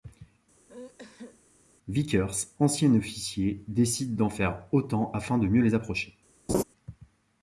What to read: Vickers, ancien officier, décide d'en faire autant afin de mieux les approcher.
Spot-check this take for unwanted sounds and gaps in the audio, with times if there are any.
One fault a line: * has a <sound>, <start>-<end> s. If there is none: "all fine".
* has a sneeze, 0.7-1.4 s
* has a laugh, 6.5-6.6 s